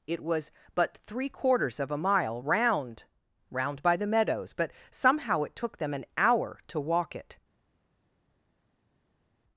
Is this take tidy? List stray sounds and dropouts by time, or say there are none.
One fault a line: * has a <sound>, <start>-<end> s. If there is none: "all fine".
all fine